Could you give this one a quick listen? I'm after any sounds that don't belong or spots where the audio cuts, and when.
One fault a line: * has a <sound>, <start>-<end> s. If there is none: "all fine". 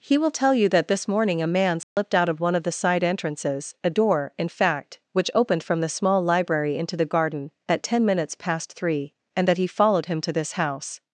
* has a dropout, 1.8-2.0 s